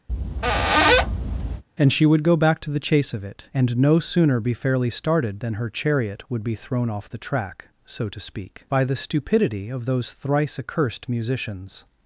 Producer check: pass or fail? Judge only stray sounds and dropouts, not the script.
fail